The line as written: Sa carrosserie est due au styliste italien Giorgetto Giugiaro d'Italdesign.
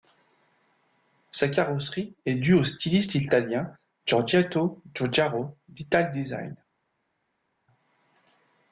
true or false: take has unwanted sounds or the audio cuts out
false